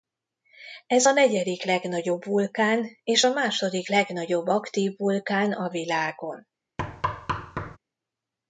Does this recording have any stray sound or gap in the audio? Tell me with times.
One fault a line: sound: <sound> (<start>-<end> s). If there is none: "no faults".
sound: thud (6.8-7.8 s)